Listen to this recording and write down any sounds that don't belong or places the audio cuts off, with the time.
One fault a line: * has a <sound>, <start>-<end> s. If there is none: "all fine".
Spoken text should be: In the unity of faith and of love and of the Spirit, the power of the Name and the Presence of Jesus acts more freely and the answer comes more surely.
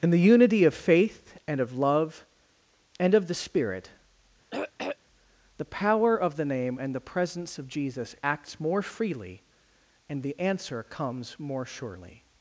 * has a throat clearing, 4.5-5.0 s